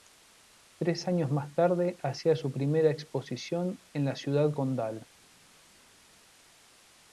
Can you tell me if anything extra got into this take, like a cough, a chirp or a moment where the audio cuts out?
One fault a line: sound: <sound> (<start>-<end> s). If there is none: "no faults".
no faults